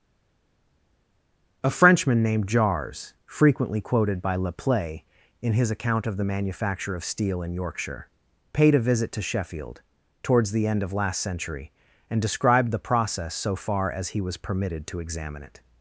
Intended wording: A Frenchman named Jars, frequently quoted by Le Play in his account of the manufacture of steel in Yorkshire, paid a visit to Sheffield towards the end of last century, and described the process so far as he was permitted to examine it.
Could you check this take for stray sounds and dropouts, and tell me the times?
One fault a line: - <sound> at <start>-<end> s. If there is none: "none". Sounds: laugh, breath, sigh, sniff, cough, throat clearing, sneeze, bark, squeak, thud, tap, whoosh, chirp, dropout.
none